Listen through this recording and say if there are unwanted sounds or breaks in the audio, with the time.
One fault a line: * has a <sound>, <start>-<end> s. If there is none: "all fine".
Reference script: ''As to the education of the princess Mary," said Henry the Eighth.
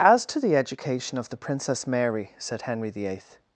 all fine